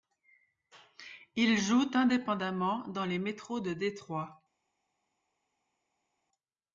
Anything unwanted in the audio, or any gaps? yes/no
no